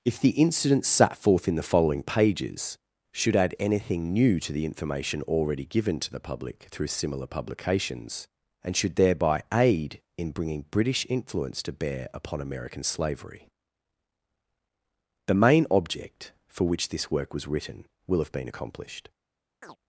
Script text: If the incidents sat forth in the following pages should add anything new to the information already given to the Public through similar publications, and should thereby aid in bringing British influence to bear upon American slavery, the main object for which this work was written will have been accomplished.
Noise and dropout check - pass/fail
fail